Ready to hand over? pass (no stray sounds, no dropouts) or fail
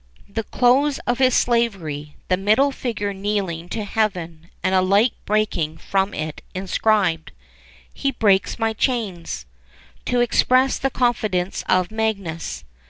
pass